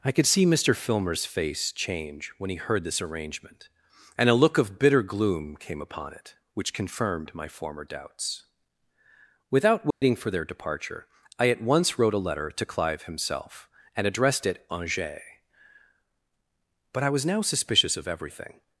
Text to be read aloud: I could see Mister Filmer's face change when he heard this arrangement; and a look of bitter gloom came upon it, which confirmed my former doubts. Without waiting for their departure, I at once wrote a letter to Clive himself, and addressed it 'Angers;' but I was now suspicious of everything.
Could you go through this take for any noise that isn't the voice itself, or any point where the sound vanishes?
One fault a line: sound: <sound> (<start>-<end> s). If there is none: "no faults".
sound: dropout (9.9-10.0 s)